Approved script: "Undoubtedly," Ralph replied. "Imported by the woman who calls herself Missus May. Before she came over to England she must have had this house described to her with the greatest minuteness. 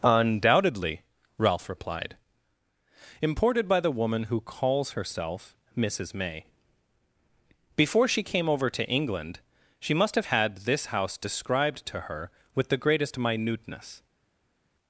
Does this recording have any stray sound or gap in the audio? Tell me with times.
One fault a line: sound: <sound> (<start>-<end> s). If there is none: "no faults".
no faults